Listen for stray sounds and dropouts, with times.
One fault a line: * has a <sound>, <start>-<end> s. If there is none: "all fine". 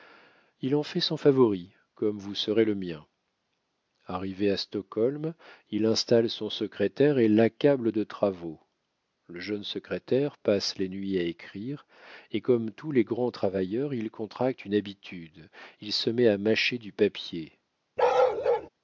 * has a bark, 18.0-18.7 s